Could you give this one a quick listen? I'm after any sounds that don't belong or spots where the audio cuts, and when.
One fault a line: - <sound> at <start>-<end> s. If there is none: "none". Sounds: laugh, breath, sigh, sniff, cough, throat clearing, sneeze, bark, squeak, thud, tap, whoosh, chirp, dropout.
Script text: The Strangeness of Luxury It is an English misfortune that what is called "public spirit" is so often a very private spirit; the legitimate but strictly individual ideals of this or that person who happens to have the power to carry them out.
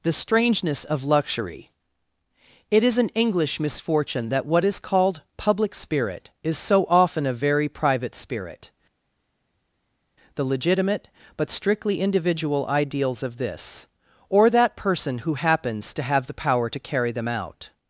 none